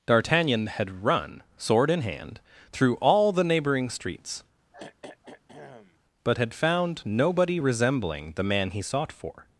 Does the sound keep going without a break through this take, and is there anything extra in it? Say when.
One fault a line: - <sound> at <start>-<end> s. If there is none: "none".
- throat clearing at 4.7-6.0 s